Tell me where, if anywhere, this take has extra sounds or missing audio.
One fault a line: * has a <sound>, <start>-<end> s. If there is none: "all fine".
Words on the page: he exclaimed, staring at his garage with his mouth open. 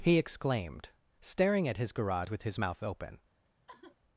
* has a sigh, 3.7-4.0 s